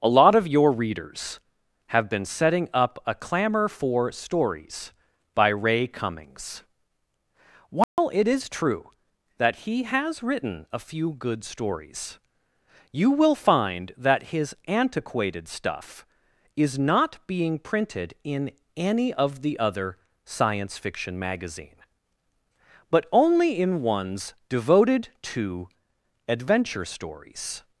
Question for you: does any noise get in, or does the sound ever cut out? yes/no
yes